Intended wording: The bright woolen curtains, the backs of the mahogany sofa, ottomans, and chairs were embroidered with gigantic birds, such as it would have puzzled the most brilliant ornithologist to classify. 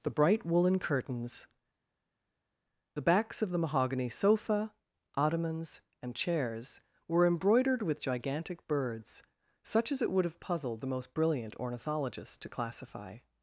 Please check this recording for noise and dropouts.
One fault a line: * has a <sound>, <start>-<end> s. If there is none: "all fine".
all fine